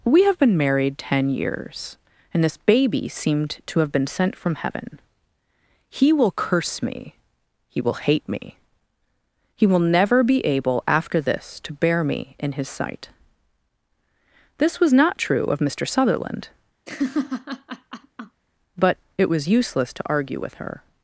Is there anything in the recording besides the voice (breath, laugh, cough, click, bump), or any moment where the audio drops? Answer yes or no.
yes